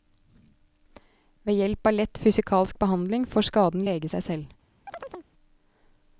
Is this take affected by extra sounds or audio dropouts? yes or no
yes